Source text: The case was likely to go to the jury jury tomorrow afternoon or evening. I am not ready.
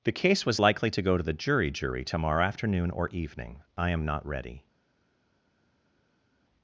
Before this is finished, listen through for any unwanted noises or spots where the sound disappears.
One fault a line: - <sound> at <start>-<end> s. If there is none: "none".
none